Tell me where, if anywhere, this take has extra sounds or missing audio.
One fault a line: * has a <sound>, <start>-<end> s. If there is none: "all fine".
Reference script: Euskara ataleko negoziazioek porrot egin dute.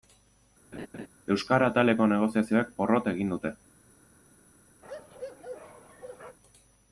* has a laugh, 0.7-1.1 s
* has a bark, 4.8-6.4 s